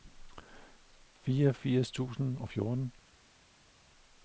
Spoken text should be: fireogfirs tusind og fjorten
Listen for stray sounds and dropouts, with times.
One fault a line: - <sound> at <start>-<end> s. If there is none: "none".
none